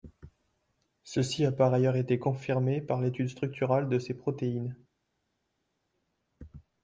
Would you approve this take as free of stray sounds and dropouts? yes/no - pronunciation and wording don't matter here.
yes